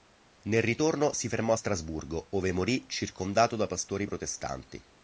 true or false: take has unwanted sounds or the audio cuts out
false